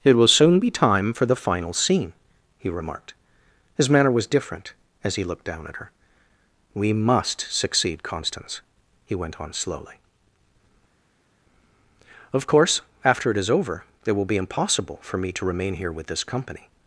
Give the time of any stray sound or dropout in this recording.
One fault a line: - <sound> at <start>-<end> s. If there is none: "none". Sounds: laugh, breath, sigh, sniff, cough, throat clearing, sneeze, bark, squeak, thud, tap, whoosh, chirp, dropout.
none